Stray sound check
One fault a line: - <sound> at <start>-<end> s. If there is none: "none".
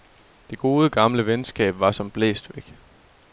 none